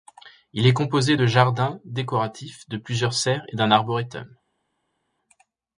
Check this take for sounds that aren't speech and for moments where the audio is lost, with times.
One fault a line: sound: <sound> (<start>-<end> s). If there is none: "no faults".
no faults